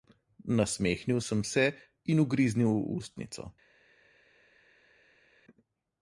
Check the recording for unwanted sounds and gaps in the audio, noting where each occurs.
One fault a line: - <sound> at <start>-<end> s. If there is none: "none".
none